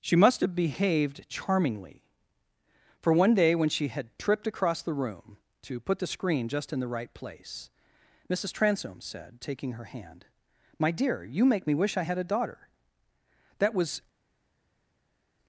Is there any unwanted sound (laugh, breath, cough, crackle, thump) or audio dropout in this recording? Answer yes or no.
no